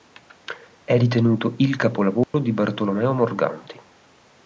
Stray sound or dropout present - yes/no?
yes